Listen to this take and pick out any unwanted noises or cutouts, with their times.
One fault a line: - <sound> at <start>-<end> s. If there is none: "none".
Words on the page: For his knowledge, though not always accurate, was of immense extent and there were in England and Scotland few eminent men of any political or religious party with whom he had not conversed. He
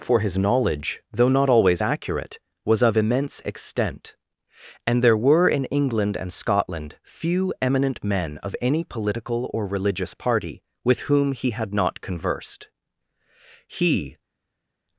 none